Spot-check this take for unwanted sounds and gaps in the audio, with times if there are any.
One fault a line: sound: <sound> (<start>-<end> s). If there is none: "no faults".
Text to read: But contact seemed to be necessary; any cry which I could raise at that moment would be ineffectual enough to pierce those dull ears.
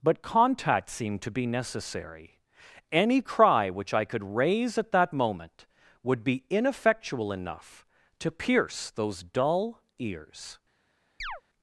sound: chirp (11.2-11.4 s)